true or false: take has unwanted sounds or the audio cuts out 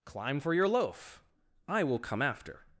false